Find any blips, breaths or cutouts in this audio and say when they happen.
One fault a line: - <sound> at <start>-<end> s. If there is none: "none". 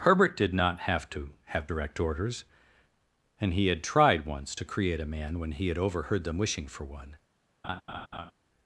- laugh at 7.6-8.3 s